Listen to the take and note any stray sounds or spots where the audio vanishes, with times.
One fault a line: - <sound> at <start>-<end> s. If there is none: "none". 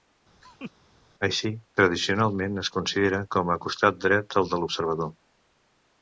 - laugh at 0.4-0.7 s